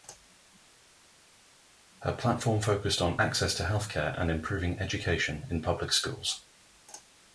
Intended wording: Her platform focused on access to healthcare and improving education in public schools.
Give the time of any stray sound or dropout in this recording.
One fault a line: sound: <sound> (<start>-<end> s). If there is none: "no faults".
no faults